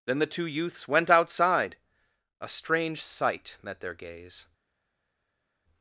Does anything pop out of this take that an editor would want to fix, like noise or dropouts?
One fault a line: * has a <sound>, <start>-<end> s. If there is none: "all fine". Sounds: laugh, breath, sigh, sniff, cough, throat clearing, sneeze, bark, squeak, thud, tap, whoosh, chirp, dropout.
all fine